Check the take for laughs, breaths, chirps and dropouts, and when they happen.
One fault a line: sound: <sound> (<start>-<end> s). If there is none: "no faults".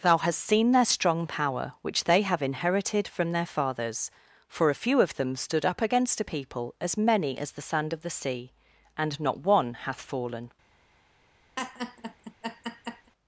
sound: laugh (11.6-13.1 s)